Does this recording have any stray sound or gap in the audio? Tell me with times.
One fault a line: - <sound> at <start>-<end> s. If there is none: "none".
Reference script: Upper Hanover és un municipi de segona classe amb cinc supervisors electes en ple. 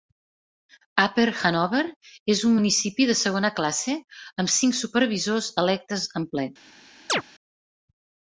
- chirp at 7.1-7.2 s